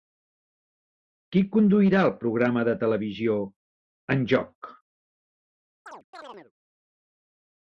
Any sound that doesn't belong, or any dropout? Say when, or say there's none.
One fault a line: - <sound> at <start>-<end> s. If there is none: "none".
- chirp at 5.9-6.5 s